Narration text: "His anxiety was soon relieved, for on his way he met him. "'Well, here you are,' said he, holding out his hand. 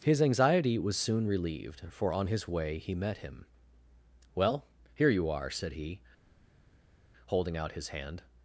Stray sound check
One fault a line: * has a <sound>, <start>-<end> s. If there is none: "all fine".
all fine